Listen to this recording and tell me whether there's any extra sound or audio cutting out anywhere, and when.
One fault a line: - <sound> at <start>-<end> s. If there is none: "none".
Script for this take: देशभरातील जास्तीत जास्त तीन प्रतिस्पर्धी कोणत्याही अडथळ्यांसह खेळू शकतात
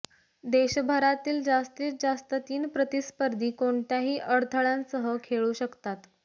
none